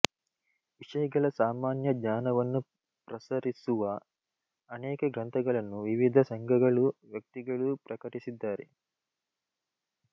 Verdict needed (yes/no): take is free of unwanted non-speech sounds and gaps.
yes